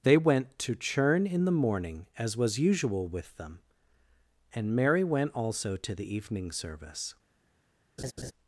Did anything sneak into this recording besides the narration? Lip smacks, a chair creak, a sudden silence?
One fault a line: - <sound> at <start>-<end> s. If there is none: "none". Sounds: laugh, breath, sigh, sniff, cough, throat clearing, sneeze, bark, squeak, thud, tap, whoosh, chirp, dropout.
- laugh at 8.0-8.3 s